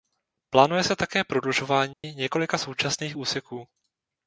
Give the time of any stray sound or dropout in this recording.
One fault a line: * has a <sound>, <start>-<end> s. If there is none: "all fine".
* has a dropout, 1.9-2.0 s